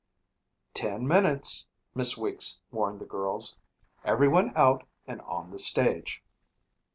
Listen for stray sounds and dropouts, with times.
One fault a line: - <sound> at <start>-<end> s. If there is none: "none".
none